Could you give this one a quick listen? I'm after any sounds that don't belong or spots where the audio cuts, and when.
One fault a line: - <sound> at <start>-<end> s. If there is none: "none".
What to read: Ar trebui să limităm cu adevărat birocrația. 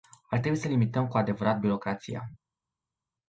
none